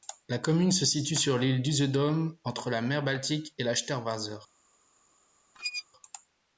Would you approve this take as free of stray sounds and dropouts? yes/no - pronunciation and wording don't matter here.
no